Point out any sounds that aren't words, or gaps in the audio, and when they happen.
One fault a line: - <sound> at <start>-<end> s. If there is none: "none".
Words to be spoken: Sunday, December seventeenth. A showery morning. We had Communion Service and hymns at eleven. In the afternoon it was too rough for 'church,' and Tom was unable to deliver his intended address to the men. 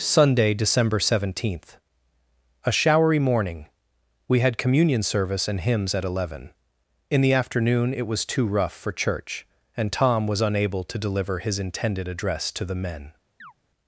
- chirp at 13.4-13.5 s